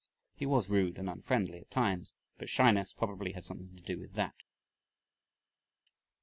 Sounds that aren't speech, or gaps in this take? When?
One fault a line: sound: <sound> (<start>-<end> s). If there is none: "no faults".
no faults